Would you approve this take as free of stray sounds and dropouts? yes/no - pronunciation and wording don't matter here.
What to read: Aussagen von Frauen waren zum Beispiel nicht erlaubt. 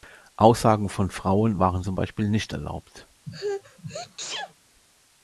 no